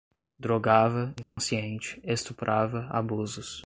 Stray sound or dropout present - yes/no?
yes